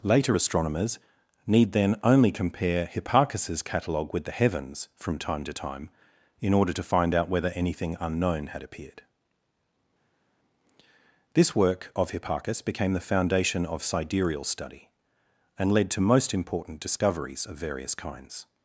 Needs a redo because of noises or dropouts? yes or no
no